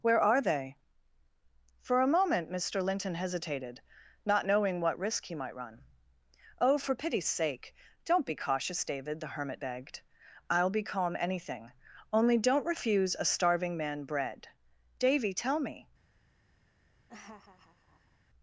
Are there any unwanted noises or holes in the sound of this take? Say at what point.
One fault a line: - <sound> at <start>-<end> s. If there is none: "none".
- laugh at 17.1-18.2 s